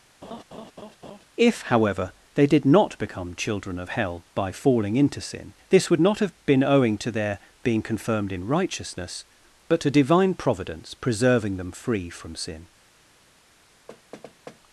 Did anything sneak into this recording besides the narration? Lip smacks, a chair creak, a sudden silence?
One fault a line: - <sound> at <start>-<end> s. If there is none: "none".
- laugh at 0.2-1.3 s
- thud at 13.9-14.6 s